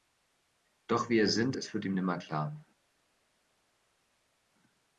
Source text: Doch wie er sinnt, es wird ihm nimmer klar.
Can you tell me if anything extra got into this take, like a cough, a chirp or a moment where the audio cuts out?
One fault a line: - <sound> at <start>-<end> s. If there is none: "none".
none